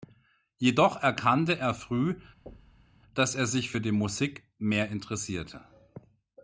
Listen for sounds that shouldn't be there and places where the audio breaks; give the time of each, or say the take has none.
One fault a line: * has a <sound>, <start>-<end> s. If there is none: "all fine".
* has a thud, 2.5-3.0 s